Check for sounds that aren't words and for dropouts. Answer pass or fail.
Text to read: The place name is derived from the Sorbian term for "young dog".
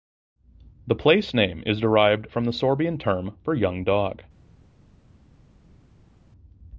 pass